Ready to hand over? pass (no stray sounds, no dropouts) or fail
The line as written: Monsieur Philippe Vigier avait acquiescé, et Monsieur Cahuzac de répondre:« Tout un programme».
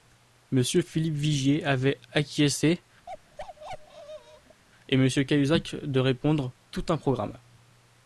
fail